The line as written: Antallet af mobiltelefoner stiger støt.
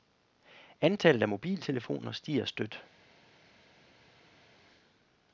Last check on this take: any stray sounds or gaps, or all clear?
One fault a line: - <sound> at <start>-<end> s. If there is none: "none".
none